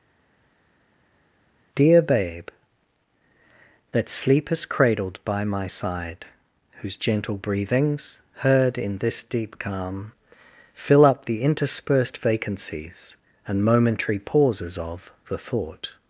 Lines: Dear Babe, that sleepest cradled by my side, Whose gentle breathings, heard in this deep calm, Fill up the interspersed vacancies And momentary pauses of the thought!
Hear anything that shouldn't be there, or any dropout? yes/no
no